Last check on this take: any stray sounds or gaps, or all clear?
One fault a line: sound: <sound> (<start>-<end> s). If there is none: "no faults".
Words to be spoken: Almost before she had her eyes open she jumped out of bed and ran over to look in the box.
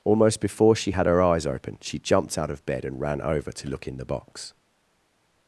no faults